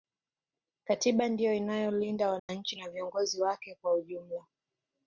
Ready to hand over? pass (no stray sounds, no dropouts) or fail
fail